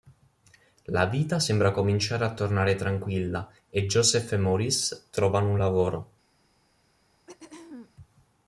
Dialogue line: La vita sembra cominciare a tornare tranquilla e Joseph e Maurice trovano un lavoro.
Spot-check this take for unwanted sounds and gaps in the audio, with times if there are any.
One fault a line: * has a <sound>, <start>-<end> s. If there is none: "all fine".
* has a throat clearing, 7.3-7.9 s